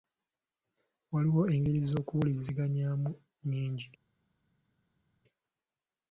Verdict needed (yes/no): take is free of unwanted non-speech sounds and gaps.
yes